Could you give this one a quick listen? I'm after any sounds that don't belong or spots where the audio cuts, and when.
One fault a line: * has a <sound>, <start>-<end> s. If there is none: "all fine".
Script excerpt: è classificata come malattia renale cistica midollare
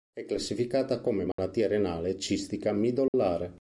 * has a dropout, 1.3-1.4 s
* has a dropout, 3.1-3.1 s